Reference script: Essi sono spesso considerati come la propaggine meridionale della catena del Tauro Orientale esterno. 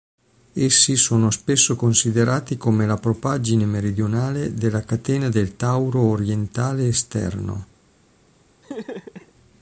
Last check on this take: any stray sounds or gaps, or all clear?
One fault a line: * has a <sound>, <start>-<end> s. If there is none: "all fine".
* has a laugh, 8.6-9.3 s